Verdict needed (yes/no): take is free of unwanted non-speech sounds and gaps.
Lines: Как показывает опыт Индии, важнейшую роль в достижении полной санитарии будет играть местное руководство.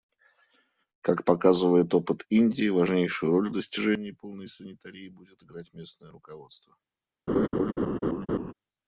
no